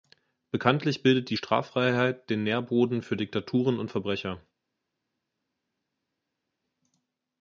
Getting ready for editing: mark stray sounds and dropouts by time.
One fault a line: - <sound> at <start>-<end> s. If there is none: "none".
none